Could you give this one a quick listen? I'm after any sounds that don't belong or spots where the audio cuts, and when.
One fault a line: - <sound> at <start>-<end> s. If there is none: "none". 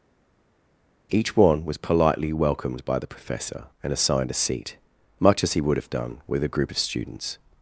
none